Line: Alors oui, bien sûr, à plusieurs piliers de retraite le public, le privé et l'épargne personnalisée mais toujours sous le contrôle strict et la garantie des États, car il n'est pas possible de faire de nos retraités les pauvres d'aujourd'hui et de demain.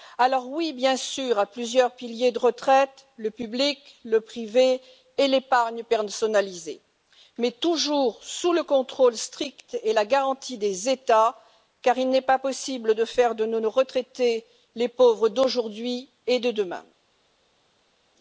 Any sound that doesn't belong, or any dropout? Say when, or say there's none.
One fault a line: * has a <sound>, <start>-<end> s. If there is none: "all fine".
all fine